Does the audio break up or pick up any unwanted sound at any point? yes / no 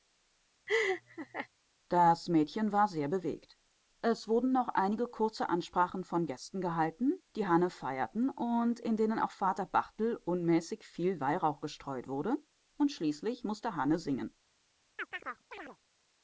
yes